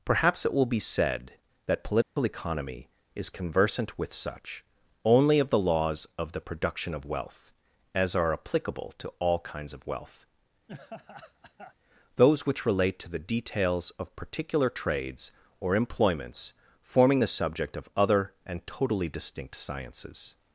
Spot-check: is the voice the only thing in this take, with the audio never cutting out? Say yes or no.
no